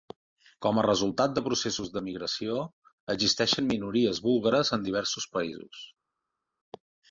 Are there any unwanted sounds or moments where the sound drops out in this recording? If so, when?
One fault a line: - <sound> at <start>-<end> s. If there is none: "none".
none